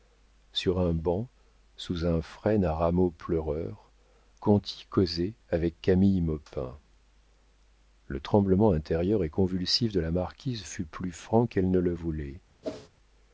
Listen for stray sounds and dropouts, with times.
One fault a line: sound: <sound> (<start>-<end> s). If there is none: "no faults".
sound: whoosh (12.6-12.9 s)